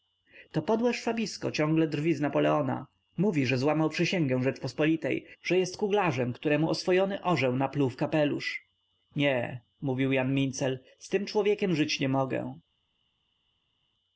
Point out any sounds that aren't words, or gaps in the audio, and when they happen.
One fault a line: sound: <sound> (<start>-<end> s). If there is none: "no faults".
no faults